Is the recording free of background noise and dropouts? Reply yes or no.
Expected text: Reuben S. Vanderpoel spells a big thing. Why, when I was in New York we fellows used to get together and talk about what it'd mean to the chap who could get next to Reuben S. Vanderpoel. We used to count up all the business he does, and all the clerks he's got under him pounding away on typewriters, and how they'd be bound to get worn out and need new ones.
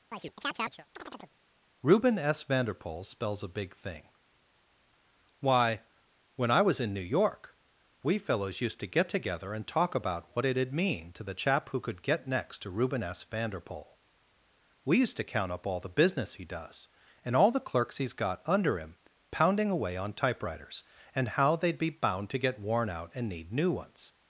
no